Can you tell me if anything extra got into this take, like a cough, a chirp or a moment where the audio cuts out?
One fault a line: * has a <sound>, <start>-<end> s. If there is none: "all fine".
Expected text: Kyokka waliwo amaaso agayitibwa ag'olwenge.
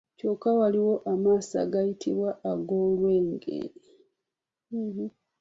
all fine